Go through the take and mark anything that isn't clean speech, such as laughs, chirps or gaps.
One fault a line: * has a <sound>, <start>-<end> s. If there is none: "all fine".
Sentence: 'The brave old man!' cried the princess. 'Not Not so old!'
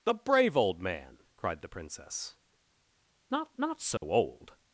* has a dropout, 4.0-4.0 s